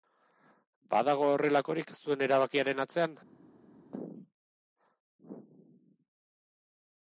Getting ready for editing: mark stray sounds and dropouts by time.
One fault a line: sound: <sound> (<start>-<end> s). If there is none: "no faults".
no faults